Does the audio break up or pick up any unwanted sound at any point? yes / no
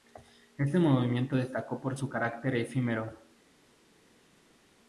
no